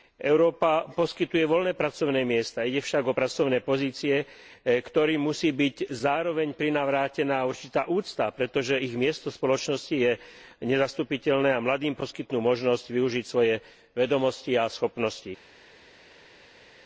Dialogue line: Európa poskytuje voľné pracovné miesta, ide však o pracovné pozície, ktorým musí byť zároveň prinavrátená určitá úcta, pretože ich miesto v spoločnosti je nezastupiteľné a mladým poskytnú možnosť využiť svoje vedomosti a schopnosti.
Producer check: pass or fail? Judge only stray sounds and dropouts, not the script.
pass